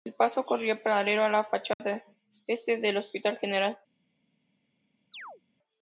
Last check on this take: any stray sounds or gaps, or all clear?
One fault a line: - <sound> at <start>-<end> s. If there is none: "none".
- dropout at 1.7-1.8 s
- chirp at 5.1-5.4 s